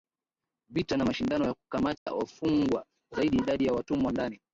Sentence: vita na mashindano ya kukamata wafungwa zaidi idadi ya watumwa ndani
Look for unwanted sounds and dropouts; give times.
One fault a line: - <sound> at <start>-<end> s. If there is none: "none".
- dropout at 2.0-2.1 s